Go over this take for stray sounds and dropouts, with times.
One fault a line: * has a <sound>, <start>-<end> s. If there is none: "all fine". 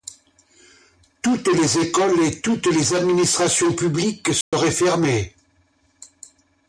* has a dropout, 4.4-4.5 s